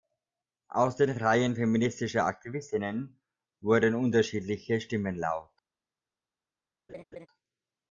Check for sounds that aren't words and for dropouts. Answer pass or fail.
fail